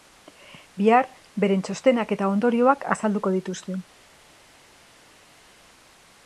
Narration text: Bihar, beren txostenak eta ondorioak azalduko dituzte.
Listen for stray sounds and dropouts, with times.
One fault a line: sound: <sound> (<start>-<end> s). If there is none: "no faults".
no faults